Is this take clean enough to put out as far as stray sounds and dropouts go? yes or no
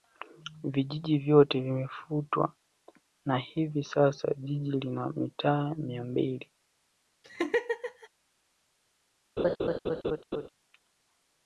no